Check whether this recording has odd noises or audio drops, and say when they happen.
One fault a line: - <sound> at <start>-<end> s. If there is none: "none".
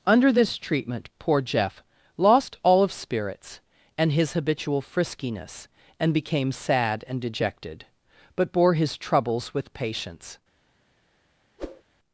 - whoosh at 11.6-11.8 s